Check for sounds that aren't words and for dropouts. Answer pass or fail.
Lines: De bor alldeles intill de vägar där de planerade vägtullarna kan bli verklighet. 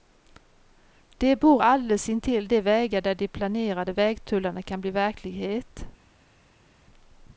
pass